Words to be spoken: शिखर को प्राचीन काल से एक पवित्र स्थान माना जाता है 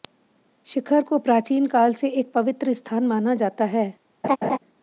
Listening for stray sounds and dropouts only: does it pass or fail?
fail